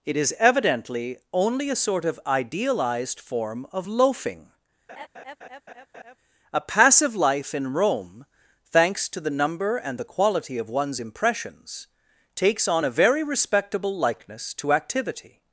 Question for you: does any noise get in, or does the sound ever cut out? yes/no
yes